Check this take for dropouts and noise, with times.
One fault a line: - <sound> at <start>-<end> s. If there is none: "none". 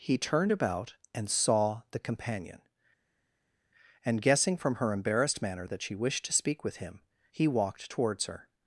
none